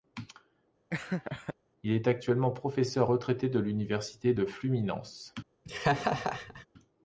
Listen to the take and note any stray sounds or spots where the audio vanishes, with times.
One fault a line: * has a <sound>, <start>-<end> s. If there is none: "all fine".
* has a laugh, 0.9-1.5 s
* has a laugh, 5.7-6.7 s